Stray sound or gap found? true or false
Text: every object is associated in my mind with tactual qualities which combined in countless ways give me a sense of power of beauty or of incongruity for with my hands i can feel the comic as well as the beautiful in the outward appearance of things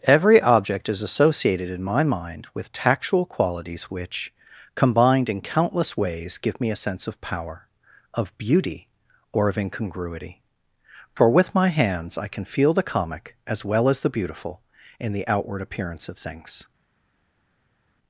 false